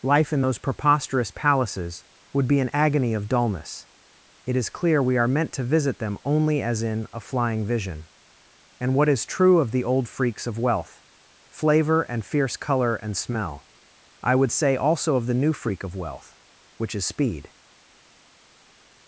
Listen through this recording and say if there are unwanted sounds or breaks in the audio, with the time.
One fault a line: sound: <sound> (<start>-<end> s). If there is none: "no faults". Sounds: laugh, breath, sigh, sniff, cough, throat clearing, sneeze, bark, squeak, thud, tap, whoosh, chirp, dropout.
no faults